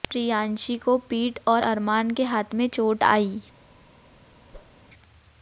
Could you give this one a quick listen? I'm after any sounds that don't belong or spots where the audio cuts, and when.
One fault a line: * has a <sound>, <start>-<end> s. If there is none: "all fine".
* has a whoosh, 4.5-4.8 s